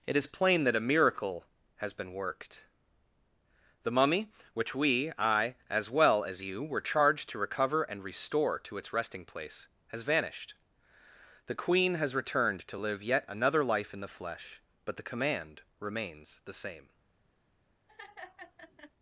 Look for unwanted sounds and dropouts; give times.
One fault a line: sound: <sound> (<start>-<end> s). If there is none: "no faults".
sound: laugh (17.9-18.9 s)